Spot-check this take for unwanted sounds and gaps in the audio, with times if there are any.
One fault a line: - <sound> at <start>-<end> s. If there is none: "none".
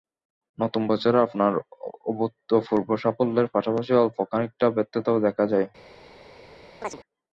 - chirp at 6.8-7.0 s